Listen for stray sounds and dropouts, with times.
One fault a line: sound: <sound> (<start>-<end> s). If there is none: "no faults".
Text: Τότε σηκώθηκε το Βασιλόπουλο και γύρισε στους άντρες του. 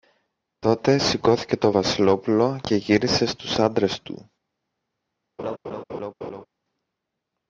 sound: laugh (5.4-6.5 s)